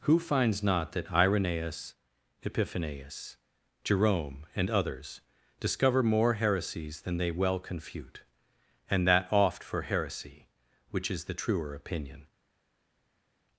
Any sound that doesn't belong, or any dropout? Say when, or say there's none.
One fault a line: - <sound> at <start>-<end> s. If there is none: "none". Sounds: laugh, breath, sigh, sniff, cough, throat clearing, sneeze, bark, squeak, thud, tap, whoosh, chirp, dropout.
none